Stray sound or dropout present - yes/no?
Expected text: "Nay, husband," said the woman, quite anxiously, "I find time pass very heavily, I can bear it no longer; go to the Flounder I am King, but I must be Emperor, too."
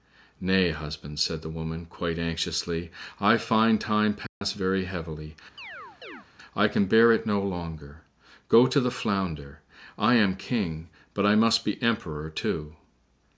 yes